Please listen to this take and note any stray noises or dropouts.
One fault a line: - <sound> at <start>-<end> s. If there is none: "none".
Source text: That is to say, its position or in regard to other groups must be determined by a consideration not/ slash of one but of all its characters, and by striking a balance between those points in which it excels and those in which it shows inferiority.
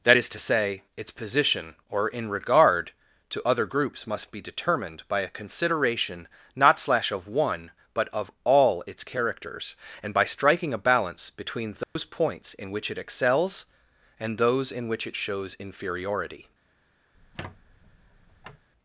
- dropout at 11.8-12.0 s
- squeak at 17.1-18.7 s